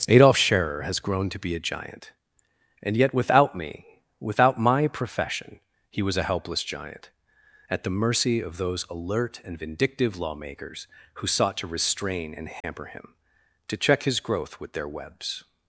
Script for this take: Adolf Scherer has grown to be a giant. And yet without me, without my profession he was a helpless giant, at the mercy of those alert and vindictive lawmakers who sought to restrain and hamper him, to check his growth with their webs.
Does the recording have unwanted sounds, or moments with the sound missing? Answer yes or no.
yes